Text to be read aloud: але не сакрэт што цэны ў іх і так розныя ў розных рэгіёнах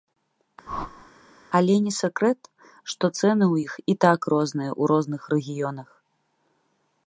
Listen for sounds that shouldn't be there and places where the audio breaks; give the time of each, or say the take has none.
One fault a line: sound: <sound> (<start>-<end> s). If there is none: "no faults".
sound: whoosh (0.7-1.1 s)